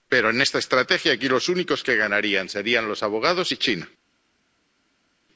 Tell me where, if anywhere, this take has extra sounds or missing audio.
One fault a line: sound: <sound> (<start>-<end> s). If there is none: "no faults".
no faults